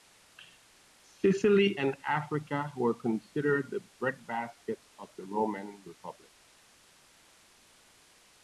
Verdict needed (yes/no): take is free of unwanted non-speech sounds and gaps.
yes